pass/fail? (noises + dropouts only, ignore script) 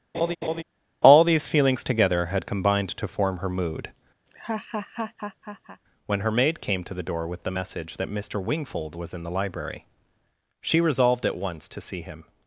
fail